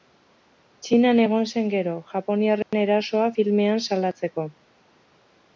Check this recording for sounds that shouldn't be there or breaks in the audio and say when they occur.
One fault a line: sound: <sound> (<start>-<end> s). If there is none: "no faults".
sound: dropout (2.6-2.7 s)